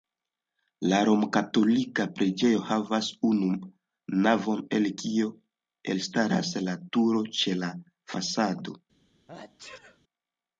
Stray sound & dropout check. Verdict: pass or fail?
fail